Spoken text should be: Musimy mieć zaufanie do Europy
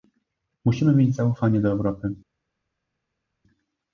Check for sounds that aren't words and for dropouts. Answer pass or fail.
pass